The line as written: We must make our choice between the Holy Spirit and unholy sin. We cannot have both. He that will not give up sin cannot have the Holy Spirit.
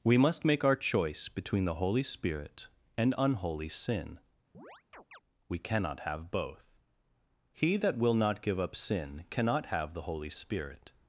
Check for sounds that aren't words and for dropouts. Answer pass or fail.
fail